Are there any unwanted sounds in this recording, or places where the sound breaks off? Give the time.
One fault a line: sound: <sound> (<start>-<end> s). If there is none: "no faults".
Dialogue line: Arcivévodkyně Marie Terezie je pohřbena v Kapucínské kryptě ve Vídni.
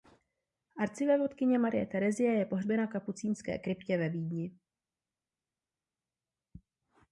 no faults